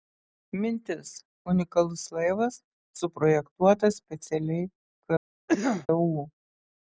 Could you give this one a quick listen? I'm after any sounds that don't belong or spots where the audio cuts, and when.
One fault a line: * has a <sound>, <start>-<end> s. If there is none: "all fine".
* has a cough, 5.5-5.9 s